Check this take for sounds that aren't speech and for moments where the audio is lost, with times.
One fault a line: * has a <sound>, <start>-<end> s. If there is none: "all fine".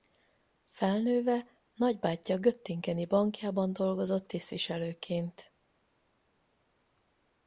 all fine